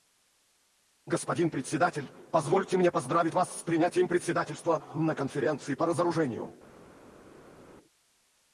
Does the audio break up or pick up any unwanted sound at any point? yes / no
no